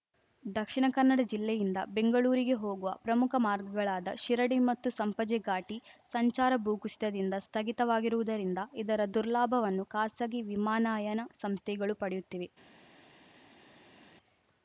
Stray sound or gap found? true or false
false